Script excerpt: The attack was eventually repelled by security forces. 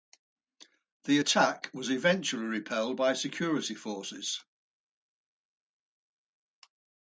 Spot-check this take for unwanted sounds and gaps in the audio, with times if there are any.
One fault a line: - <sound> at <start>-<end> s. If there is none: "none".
none